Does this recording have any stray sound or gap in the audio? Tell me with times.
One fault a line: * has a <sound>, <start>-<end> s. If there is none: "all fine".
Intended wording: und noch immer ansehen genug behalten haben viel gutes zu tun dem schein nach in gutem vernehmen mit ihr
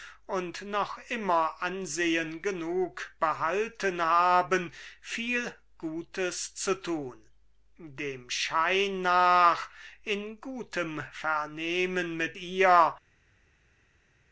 all fine